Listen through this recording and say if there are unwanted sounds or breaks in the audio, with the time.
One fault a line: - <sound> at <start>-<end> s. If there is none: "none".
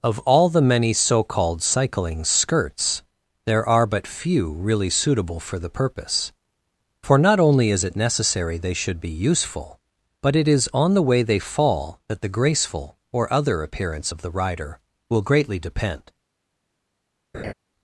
- laugh at 17.3-17.5 s